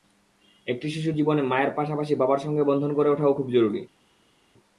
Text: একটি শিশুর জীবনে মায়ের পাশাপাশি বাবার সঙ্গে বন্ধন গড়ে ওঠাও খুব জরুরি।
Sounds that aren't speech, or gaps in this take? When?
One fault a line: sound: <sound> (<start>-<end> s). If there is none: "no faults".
no faults